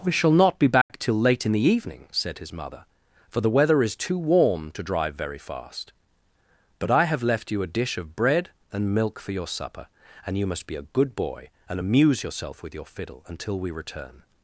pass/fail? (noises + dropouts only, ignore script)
fail